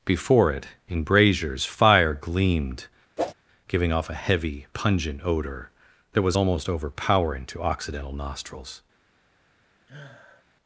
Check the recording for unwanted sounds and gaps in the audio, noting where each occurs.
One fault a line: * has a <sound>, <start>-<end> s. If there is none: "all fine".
* has a whoosh, 3.2-3.3 s
* has a sniff, 9.9-10.4 s